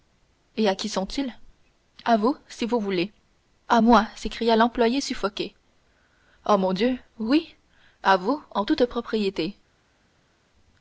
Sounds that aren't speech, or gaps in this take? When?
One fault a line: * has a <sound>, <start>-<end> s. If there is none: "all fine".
all fine